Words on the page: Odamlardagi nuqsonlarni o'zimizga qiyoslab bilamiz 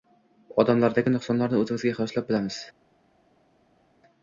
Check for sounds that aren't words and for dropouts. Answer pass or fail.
pass